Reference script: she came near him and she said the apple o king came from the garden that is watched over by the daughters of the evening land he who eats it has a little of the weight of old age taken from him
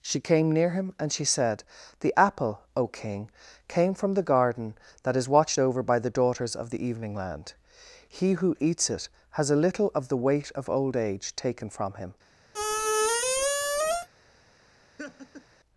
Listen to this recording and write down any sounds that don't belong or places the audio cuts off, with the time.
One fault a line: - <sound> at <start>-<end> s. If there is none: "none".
- squeak at 12.5-14.1 s
- laugh at 15.0-15.4 s